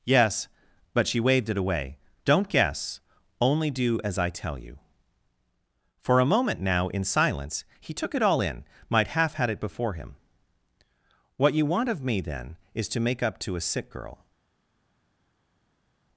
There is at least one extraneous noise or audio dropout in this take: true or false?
false